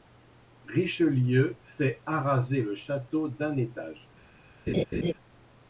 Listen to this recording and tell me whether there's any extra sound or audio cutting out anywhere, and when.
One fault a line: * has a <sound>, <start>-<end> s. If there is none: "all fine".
* has a laugh, 4.7-5.1 s